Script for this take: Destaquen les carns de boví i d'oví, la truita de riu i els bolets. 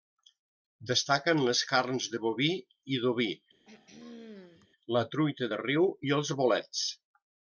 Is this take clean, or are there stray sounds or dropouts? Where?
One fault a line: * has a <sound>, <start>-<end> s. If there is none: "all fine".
* has a throat clearing, 3.7-4.7 s